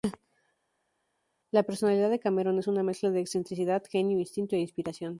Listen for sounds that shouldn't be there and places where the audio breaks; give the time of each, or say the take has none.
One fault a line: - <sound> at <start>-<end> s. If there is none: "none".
none